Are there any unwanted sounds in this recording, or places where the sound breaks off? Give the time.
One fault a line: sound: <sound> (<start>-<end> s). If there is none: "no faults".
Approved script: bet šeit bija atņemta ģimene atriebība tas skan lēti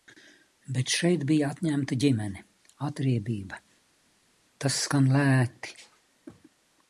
no faults